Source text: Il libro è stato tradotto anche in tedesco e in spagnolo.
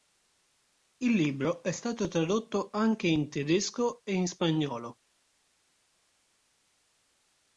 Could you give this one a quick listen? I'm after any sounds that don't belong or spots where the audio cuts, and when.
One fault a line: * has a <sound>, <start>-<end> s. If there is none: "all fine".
all fine